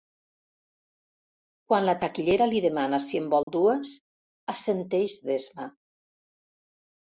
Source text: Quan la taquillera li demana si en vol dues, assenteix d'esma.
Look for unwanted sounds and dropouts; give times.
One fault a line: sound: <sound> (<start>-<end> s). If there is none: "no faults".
sound: dropout (3.4-3.5 s)